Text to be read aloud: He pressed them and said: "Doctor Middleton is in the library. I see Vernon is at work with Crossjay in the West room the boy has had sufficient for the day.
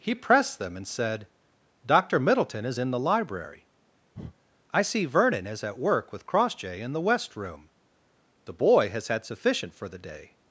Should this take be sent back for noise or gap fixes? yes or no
yes